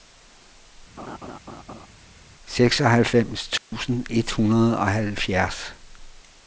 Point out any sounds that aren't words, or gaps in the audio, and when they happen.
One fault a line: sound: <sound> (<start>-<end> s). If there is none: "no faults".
sound: laugh (1.0-1.9 s)
sound: dropout (3.6-3.7 s)